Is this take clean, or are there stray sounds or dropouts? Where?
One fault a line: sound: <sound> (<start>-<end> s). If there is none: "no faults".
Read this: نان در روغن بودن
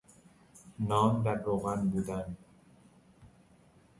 no faults